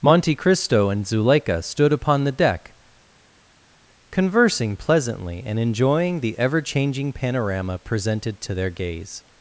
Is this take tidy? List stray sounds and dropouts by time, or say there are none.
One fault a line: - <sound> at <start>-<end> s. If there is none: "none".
none